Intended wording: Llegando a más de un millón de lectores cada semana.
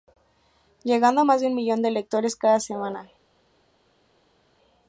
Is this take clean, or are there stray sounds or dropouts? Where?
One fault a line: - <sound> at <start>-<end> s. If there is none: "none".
none